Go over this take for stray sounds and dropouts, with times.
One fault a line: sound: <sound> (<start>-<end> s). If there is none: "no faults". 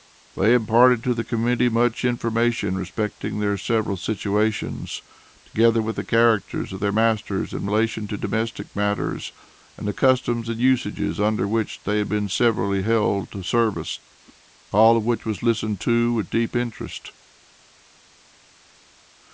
no faults